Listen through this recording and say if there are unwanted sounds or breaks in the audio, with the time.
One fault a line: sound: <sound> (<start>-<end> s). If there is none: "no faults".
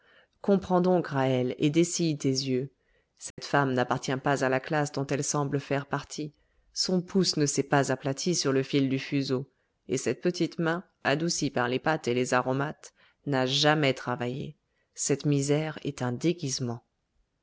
sound: dropout (3.3-3.4 s)